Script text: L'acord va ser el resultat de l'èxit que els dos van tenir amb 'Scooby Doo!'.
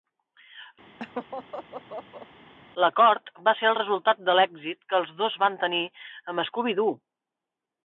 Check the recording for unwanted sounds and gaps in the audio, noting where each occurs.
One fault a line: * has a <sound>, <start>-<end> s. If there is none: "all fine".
* has a laugh, 1.0-2.3 s